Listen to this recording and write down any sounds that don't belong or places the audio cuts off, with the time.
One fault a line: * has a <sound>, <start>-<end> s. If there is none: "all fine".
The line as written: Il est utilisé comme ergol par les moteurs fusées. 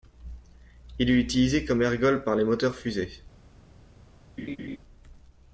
* has a laugh, 4.4-4.8 s